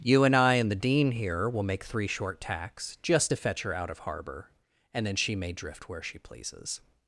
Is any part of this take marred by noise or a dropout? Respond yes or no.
no